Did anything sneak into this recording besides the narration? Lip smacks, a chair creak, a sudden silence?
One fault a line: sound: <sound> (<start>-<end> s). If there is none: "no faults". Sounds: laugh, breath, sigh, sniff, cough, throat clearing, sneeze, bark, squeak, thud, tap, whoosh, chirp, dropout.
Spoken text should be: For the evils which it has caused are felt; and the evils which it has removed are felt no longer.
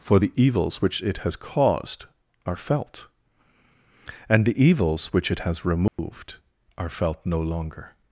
sound: dropout (5.9-6.0 s)